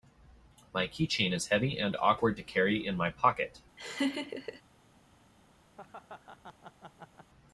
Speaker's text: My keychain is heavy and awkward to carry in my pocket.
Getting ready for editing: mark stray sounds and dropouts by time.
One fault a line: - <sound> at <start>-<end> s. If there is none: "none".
- laugh at 3.8-4.6 s
- laugh at 5.7-7.3 s